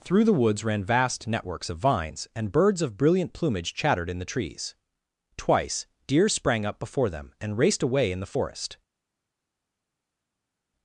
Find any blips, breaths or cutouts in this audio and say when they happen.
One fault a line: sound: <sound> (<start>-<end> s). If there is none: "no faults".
no faults